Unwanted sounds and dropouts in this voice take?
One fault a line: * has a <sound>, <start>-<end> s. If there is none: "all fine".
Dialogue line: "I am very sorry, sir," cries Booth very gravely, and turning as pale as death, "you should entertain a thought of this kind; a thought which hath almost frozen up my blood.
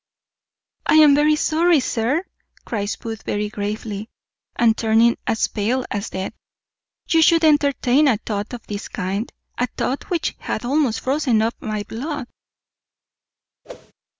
* has a whoosh, 13.6-13.9 s